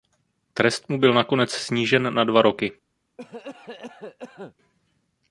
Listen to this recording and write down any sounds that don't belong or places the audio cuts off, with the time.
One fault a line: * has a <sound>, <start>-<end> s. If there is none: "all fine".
* has a cough, 3.2-4.5 s